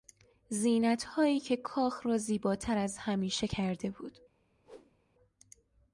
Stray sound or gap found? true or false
true